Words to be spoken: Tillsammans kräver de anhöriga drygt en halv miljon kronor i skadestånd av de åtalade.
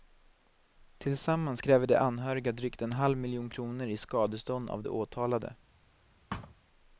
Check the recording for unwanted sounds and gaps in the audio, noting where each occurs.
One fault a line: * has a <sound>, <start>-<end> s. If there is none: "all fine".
* has a thud, 6.3-6.6 s